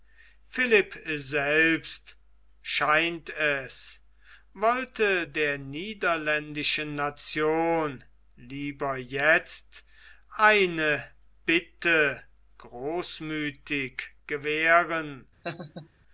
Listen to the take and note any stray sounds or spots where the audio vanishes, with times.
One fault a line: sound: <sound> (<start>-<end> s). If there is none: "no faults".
sound: laugh (15.4-15.9 s)